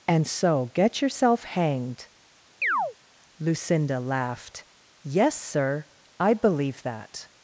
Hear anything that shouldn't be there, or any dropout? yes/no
yes